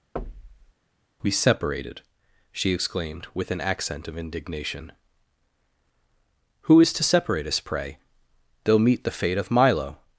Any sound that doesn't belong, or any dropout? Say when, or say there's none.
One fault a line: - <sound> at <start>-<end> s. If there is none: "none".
- thud at 0.2-0.7 s